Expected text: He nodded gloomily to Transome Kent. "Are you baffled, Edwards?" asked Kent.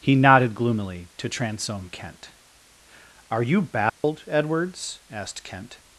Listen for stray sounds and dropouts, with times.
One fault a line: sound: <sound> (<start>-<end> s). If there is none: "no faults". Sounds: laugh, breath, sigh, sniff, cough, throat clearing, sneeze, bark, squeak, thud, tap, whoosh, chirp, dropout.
sound: dropout (3.9-4.0 s)